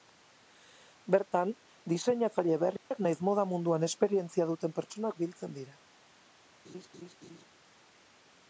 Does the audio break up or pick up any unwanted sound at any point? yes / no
yes